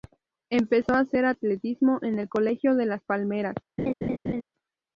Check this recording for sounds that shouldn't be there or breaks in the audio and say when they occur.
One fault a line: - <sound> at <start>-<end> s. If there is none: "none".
- laugh at 3.8-4.4 s